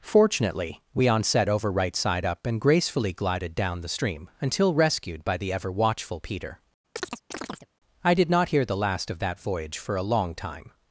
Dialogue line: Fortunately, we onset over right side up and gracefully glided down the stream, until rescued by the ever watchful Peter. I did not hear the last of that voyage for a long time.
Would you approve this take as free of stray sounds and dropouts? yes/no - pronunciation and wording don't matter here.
no